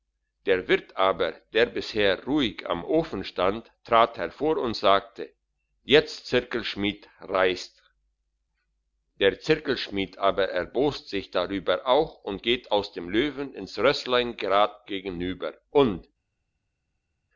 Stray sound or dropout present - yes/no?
no